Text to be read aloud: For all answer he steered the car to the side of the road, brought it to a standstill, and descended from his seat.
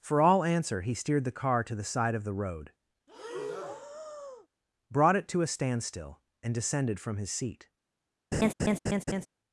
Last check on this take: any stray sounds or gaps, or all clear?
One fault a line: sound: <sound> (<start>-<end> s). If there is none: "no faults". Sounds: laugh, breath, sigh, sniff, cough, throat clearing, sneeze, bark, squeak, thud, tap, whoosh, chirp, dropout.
sound: breath (3.1-4.5 s)
sound: laugh (8.3-9.3 s)